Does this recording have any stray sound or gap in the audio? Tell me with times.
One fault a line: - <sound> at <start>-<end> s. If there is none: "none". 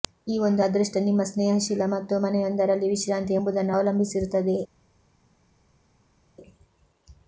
none